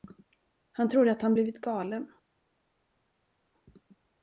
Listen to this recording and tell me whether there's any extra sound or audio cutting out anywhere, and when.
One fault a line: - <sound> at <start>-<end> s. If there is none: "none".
none